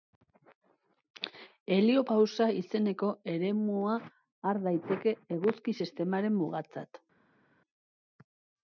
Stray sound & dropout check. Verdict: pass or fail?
pass